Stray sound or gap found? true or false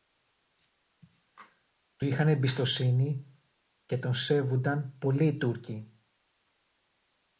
false